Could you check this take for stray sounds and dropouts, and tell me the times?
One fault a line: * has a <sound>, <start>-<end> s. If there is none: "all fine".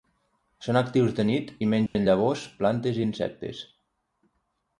* has a dropout, 1.9-2.0 s